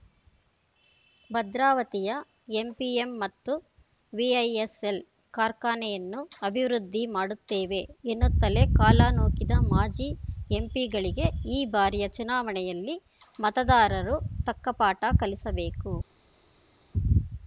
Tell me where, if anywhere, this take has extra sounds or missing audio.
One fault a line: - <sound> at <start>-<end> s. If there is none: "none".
none